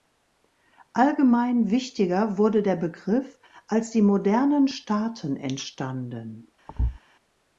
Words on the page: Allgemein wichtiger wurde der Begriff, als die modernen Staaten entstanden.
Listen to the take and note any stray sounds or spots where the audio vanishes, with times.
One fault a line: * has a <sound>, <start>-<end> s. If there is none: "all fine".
* has a thud, 6.7-7.0 s